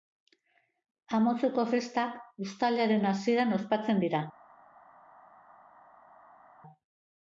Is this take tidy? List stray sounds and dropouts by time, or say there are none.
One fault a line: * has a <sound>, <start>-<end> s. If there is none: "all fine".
all fine